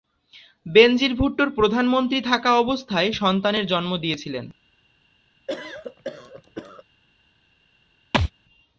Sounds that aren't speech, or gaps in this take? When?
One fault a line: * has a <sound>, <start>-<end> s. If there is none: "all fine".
* has a cough, 5.5-6.8 s
* has a thud, 8.1-8.3 s